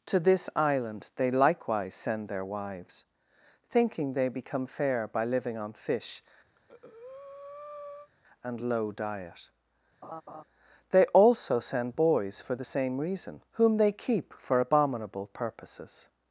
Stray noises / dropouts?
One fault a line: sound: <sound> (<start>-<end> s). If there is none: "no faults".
sound: breath (6.5-8.1 s)
sound: laugh (10.0-10.4 s)